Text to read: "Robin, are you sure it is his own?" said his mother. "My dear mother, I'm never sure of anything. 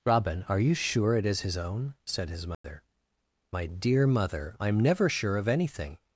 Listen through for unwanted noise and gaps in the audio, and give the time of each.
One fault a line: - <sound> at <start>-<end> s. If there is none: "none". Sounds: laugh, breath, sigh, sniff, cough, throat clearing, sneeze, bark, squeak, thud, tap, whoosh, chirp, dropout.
- dropout at 2.5-2.6 s